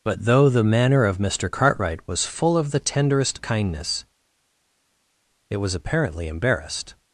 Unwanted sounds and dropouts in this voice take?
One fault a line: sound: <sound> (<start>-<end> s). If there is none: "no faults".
no faults